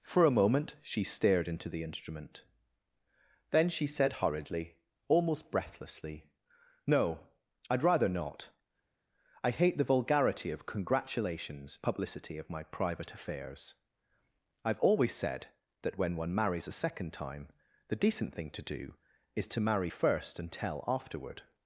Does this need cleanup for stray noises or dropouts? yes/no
no